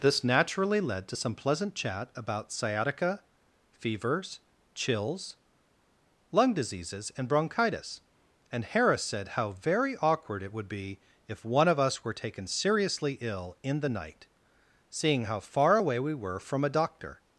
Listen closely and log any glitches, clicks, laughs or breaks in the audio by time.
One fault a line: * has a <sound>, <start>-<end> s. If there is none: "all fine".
all fine